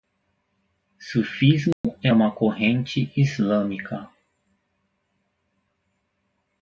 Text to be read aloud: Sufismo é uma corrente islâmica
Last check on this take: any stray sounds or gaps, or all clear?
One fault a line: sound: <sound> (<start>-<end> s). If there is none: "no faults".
sound: dropout (1.7-1.8 s)